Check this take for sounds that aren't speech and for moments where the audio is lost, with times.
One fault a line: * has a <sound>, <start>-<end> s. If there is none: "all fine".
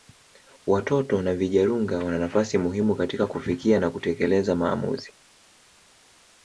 all fine